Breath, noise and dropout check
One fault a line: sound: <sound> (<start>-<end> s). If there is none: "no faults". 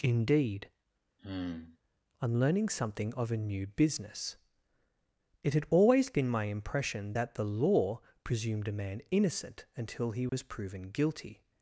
sound: sigh (1.2-1.8 s)
sound: dropout (10.3-10.3 s)